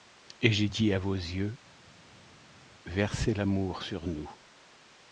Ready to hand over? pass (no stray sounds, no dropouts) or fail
pass